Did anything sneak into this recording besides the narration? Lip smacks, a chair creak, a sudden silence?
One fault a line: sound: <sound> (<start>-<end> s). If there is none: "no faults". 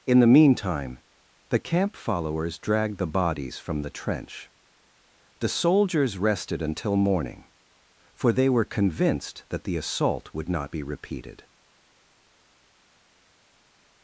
no faults